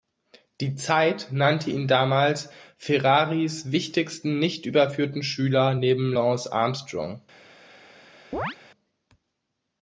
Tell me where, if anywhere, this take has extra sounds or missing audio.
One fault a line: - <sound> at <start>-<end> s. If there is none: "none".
- chirp at 8.3-8.6 s